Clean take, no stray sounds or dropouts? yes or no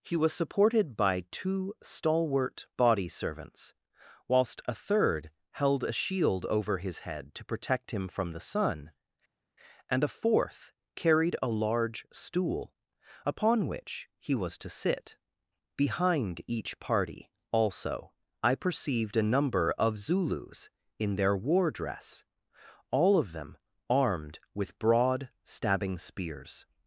yes